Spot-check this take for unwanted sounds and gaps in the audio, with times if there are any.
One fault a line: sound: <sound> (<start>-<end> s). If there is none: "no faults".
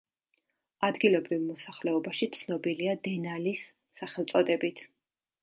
no faults